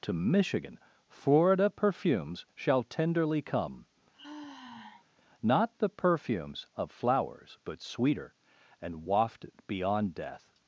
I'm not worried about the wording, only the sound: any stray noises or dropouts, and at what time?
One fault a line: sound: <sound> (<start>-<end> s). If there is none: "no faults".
sound: sigh (4.1-5.1 s)